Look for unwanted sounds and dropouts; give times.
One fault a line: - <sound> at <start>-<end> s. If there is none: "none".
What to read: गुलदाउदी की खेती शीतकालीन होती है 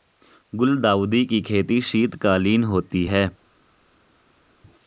none